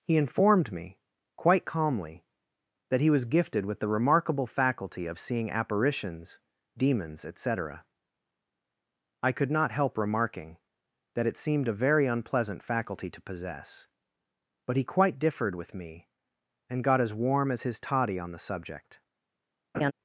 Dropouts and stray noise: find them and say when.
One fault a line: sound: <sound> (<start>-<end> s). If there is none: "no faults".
sound: laugh (19.7-19.9 s)